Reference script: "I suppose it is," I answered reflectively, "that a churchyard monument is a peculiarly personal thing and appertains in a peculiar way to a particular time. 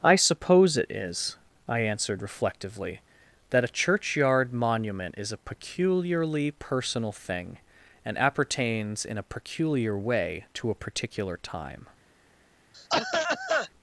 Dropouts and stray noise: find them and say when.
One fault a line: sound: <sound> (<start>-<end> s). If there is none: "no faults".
sound: cough (12.7-13.7 s)